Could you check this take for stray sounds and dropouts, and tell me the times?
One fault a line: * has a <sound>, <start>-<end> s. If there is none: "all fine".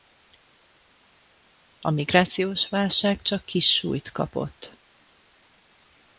all fine